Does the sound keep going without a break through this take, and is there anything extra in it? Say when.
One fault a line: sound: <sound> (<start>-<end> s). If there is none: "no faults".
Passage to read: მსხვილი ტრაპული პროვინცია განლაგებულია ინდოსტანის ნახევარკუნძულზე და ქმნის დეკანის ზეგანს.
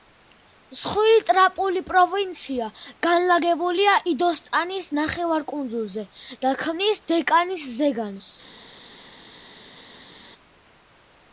no faults